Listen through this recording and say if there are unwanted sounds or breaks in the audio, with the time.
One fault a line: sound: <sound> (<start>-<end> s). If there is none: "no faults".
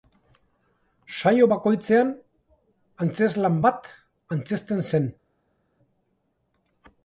no faults